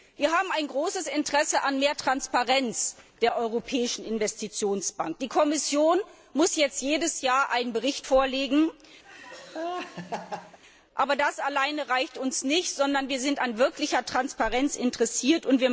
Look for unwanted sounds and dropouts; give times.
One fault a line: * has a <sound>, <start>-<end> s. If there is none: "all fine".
* has a laugh, 9.0-10.6 s